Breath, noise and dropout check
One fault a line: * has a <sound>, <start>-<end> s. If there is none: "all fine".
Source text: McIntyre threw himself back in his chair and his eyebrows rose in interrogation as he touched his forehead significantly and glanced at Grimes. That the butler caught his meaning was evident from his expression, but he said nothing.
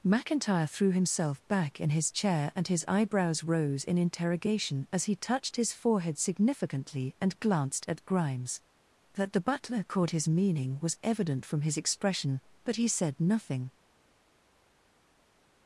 all fine